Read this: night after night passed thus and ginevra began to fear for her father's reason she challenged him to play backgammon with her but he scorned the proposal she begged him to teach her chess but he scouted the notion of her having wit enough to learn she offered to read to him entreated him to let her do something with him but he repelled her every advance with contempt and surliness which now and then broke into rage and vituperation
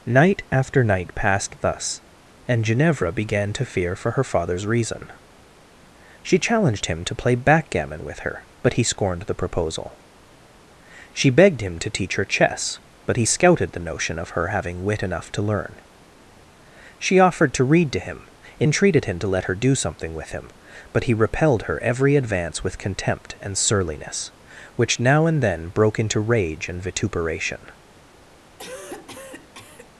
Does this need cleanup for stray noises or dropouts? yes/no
yes